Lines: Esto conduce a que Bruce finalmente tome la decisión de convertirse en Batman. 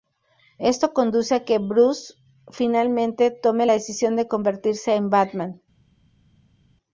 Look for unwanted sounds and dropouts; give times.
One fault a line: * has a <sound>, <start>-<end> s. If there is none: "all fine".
all fine